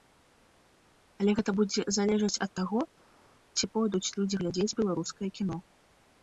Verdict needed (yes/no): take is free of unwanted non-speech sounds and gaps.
yes